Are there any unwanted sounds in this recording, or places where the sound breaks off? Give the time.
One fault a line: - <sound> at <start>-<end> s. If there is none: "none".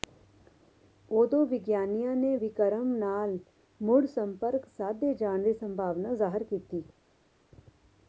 none